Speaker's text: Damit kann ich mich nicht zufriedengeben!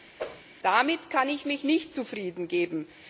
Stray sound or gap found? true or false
true